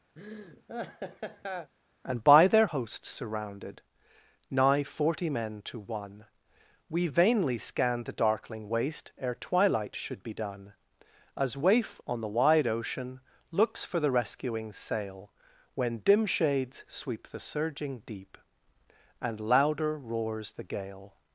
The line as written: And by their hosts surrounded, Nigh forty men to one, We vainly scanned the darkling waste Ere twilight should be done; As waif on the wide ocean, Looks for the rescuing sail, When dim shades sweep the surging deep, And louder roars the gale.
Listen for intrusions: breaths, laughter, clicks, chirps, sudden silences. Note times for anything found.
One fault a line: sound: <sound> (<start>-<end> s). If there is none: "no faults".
sound: laugh (0.2-1.7 s)